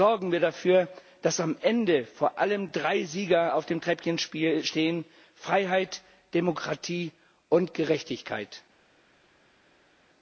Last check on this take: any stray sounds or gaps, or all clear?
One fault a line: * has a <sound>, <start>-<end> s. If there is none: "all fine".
all fine